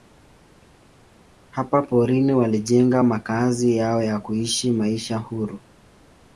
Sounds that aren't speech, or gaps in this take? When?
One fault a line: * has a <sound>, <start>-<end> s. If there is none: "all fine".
all fine